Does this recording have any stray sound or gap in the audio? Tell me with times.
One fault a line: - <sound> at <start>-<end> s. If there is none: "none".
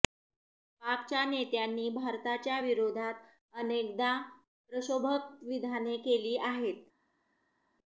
none